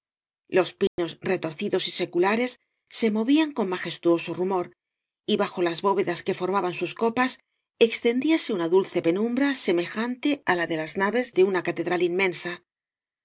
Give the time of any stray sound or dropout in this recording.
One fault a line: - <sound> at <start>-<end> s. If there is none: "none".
- dropout at 0.9-1.0 s